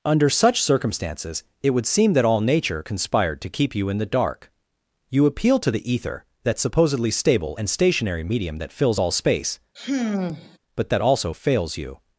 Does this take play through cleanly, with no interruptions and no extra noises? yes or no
no